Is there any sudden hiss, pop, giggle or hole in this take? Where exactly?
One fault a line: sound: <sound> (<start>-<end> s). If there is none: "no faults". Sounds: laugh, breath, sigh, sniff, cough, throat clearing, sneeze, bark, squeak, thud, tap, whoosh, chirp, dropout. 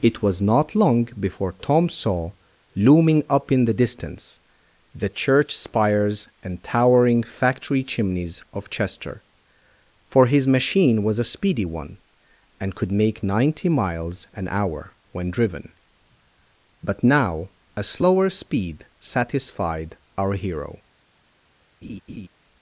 sound: laugh (21.8-22.3 s)